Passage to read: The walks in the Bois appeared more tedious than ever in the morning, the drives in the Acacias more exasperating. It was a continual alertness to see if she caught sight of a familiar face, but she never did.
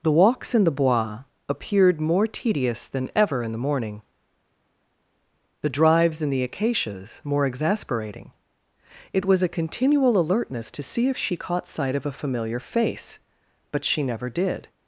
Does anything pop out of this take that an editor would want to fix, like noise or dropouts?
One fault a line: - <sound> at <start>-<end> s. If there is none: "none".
none